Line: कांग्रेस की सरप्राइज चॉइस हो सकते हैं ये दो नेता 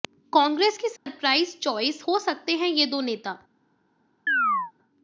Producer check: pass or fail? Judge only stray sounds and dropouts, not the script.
fail